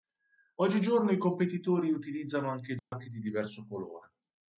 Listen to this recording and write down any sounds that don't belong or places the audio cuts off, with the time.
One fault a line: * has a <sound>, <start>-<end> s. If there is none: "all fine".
* has a dropout, 2.8-2.9 s